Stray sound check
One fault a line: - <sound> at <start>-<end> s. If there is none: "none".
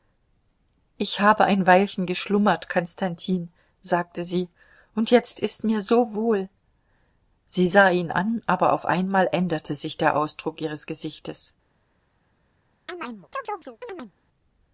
- chirp at 12.9-14.1 s